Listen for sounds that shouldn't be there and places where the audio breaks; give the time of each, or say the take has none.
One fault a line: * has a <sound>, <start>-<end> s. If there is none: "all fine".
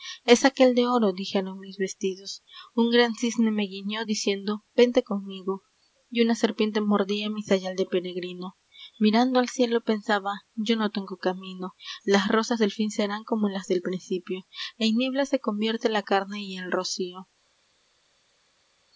all fine